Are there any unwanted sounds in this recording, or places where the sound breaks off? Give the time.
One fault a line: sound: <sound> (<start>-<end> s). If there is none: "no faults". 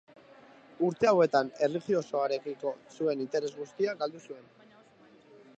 no faults